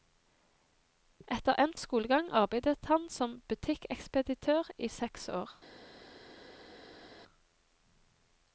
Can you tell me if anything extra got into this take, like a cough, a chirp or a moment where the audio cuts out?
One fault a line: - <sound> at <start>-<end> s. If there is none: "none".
none